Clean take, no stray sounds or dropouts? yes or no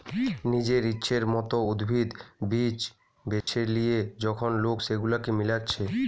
no